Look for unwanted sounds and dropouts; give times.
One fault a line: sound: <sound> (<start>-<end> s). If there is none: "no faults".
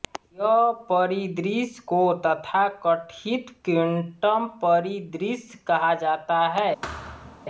sound: thud (6.8-7.5 s)